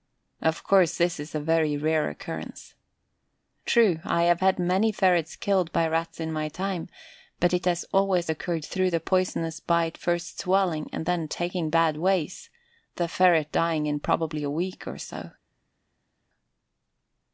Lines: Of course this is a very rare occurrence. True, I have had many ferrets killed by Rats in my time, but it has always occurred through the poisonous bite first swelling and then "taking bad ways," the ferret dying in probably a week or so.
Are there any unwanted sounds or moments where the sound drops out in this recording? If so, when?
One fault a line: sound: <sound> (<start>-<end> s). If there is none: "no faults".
no faults